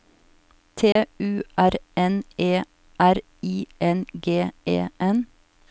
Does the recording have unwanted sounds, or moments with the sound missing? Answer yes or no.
yes